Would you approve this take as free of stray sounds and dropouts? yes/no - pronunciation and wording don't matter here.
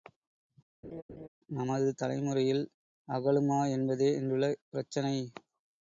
no